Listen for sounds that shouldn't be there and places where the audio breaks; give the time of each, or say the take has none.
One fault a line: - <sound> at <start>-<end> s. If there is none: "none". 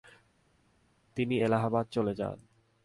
none